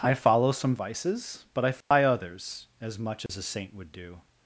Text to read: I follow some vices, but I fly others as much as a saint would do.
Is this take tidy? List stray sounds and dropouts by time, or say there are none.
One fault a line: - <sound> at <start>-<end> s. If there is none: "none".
- dropout at 1.8-1.9 s
- dropout at 3.3-3.3 s